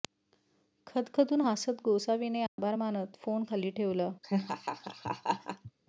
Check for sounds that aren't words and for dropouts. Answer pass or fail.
fail